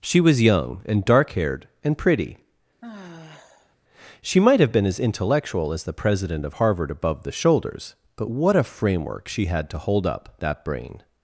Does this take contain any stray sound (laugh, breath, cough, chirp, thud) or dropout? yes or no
yes